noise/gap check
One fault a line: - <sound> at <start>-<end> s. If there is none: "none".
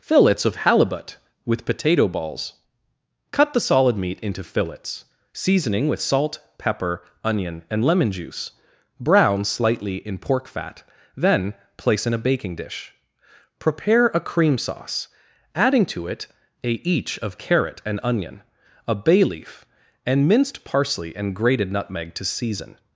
none